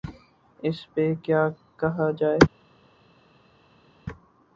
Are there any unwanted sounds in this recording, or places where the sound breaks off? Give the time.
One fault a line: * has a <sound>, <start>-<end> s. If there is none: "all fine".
all fine